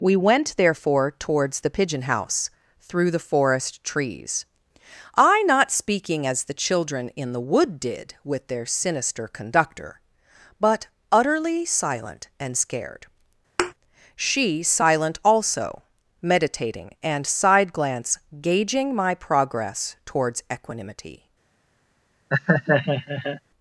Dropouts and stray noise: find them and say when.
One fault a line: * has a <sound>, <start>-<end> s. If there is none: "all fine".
* has a thud, 13.6-13.7 s
* has a laugh, 22.3-23.4 s